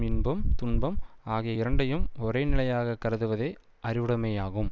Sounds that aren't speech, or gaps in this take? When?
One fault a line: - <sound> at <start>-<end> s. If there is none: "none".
none